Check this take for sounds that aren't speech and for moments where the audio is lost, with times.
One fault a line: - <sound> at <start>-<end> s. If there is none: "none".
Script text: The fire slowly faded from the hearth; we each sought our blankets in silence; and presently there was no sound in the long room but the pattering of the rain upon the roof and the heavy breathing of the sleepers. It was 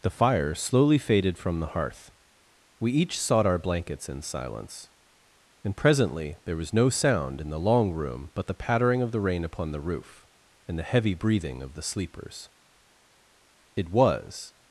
none